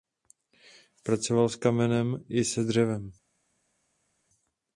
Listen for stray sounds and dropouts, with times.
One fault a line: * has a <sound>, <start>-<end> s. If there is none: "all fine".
all fine